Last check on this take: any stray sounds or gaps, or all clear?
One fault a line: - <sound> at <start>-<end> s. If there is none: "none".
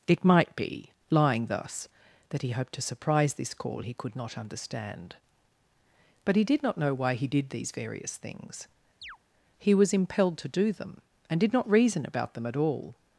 - chirp at 9.0-9.2 s